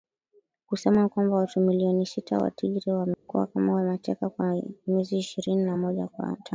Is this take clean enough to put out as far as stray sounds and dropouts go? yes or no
no